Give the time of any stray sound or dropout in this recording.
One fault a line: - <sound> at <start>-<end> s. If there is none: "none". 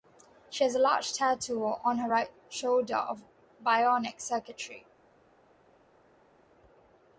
none